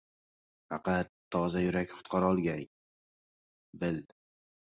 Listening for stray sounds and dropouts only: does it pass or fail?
pass